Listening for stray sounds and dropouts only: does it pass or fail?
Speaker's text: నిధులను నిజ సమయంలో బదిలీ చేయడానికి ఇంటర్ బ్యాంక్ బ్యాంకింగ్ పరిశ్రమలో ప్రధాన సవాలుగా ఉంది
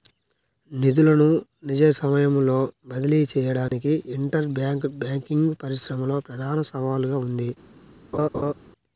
fail